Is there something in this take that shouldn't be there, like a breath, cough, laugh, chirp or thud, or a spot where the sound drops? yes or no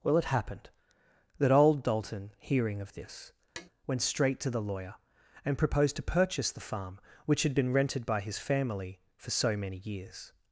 yes